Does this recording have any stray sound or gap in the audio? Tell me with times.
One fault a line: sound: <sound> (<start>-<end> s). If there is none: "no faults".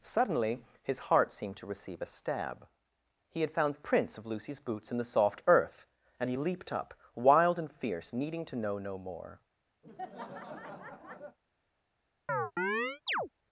sound: laugh (9.8-11.4 s)
sound: chirp (12.3-13.3 s)